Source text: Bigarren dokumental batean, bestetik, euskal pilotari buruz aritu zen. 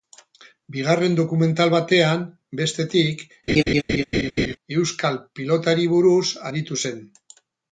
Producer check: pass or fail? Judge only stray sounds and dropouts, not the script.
fail